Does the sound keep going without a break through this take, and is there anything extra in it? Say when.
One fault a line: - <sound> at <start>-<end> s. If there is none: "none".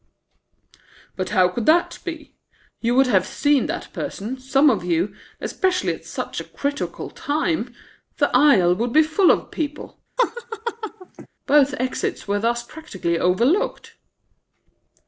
- laugh at 10.2-11.3 s